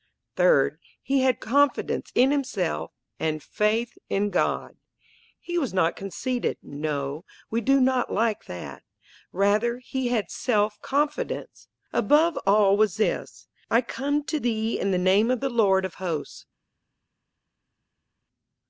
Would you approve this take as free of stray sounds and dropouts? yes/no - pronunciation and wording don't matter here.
yes